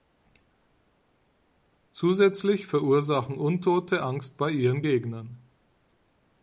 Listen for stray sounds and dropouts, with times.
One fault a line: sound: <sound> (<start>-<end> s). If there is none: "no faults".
no faults